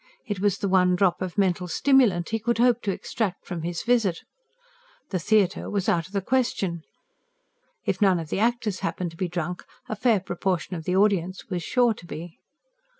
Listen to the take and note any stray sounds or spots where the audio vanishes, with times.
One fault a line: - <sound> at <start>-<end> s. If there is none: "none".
none